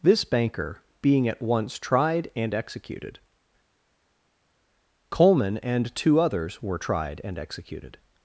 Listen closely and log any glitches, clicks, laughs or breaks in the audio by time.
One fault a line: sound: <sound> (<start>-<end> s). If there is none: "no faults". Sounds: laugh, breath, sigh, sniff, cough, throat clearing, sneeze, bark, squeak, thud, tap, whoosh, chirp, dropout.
no faults